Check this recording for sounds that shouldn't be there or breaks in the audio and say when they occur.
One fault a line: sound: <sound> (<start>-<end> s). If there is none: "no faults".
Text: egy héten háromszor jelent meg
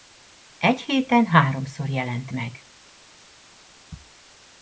no faults